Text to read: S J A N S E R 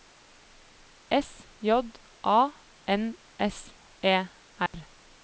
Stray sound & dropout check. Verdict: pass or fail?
fail